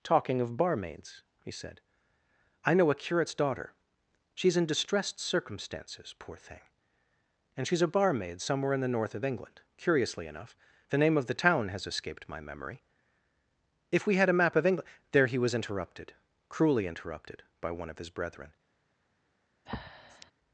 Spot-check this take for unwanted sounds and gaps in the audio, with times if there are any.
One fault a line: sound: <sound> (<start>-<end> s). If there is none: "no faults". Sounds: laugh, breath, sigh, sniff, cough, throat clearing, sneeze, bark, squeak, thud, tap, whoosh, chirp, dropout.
sound: breath (19.7-20.3 s)